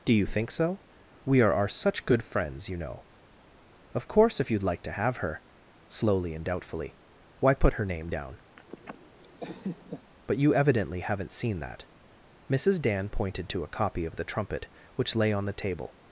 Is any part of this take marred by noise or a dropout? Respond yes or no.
yes